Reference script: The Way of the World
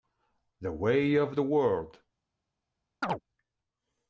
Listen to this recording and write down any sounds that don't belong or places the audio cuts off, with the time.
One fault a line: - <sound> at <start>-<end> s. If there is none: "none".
- chirp at 3.0-3.2 s